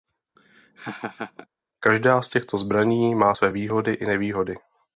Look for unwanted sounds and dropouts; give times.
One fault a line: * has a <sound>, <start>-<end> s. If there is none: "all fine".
* has a laugh, 0.4-1.5 s